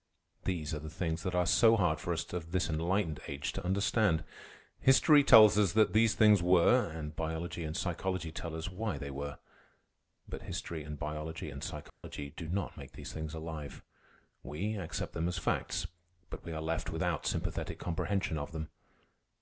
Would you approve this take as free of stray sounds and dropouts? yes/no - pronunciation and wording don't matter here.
no